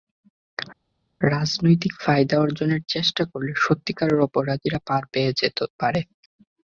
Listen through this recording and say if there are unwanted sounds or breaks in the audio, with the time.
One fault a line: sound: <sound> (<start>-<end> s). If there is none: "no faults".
no faults